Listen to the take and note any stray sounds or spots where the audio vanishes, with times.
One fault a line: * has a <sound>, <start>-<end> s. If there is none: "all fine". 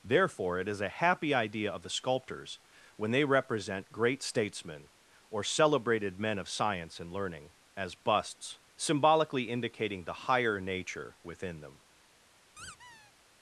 * has a squeak, 12.6-13.1 s